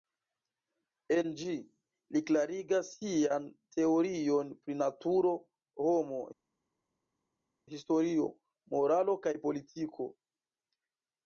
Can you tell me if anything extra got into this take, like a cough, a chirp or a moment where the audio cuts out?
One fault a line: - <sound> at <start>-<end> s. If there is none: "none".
none